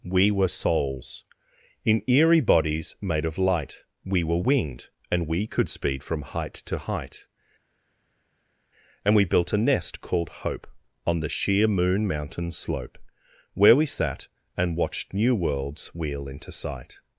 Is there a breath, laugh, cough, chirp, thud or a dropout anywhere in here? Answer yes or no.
no